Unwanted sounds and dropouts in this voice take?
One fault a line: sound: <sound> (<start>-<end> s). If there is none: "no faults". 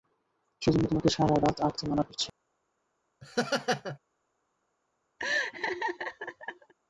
sound: laugh (3.2-4.0 s)
sound: laugh (5.2-6.7 s)